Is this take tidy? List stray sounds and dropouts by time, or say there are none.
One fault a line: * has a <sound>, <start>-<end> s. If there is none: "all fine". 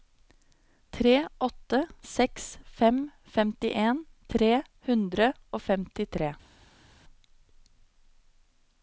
all fine